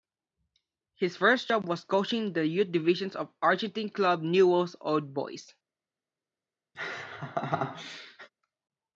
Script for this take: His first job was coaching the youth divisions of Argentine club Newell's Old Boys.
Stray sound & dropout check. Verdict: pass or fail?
fail